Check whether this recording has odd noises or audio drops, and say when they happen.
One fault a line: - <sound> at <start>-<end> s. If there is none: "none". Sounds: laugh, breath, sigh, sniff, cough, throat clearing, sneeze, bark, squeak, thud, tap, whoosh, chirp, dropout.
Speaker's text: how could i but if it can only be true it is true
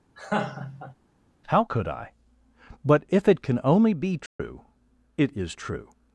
- laugh at 0.1-0.9 s
- dropout at 4.3-4.4 s